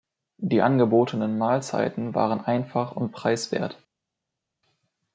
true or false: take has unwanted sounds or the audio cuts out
false